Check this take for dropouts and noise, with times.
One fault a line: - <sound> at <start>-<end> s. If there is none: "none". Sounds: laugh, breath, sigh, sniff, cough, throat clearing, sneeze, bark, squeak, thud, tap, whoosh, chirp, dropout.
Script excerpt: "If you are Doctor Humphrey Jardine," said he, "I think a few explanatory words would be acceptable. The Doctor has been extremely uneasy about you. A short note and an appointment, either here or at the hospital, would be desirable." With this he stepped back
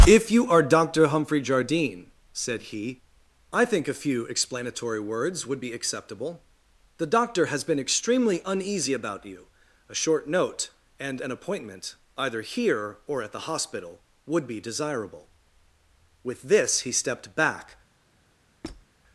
- squeak at 18.6-18.9 s